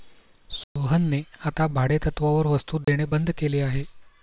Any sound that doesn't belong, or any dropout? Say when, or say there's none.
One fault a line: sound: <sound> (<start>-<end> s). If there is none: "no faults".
sound: dropout (0.6-0.8 s)
sound: dropout (2.8-2.9 s)